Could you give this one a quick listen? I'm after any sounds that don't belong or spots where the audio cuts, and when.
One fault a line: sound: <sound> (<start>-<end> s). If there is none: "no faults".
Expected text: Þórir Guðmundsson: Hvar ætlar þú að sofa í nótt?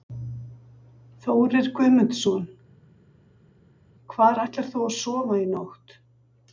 no faults